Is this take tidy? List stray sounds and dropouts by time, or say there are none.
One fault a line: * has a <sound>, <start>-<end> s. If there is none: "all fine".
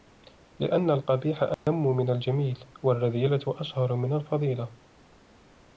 * has a dropout, 1.5-1.7 s